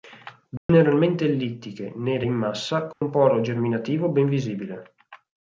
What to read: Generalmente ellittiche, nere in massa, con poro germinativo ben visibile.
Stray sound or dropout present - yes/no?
yes